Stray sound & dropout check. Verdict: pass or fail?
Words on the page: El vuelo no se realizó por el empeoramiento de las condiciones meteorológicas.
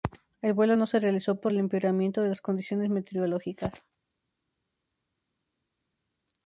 pass